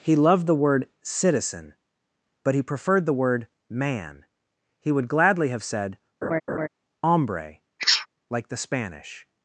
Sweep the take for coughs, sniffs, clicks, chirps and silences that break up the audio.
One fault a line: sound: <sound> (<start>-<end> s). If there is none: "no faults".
sound: laugh (6.2-6.7 s)
sound: sneeze (7.8-8.1 s)